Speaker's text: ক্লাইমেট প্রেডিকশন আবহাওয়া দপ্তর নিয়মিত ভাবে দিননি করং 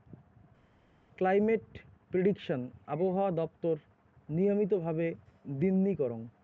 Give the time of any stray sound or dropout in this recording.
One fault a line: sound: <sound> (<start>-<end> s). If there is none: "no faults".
no faults